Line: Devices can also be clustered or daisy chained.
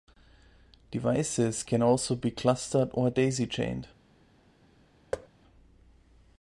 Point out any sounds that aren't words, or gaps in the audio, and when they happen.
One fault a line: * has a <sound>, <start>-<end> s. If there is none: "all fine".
* has a thud, 5.1-5.3 s